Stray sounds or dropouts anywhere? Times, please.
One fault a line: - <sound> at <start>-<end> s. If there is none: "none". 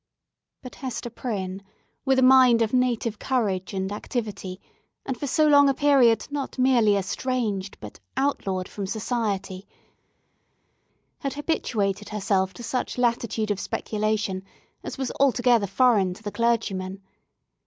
none